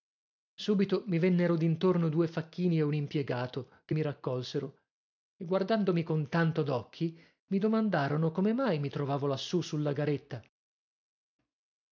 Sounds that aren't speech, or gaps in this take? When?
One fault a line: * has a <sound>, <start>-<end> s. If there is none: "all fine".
all fine